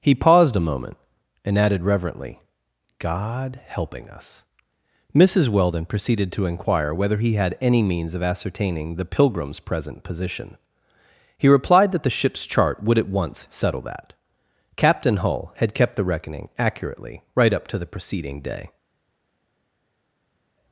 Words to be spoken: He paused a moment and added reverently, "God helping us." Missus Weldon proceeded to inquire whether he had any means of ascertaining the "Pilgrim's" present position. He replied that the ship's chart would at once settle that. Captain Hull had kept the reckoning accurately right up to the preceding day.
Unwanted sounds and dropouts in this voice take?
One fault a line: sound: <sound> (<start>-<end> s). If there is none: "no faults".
no faults